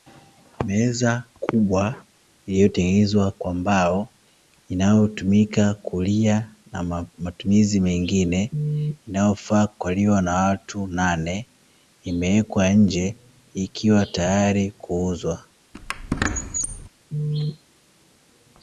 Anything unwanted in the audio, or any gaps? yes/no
yes